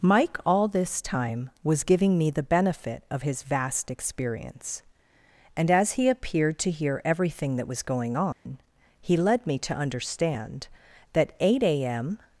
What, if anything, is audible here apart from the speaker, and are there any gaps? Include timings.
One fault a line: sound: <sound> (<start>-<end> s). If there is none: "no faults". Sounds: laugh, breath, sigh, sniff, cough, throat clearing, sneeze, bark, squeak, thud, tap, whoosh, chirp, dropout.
sound: dropout (8.3-8.5 s)